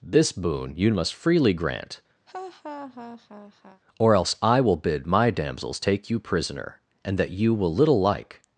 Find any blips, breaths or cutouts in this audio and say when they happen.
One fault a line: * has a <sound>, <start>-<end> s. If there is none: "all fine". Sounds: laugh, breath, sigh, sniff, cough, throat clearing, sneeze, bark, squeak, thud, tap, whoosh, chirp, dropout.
* has a laugh, 2.3-3.8 s